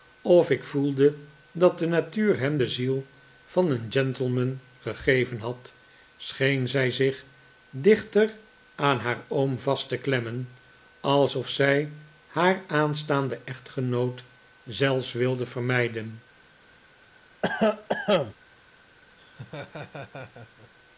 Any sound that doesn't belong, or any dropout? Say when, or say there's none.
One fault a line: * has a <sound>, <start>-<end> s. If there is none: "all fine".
* has a cough, 17.4-18.3 s
* has a laugh, 19.2-20.7 s